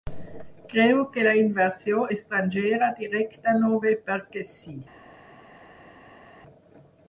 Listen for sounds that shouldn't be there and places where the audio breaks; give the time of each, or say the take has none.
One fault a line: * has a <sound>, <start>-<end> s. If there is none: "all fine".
all fine